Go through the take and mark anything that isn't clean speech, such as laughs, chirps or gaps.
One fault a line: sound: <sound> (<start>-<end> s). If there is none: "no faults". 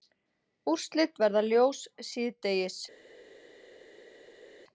no faults